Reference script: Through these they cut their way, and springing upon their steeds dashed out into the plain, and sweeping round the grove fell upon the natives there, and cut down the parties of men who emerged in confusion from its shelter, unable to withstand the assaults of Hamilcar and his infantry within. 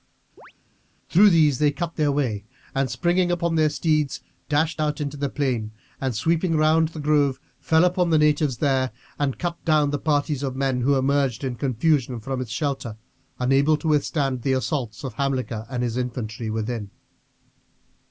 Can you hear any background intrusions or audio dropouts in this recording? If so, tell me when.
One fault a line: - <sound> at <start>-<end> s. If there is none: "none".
- chirp at 0.4-0.5 s